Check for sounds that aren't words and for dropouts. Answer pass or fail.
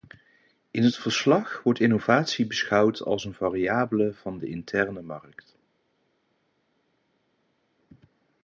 pass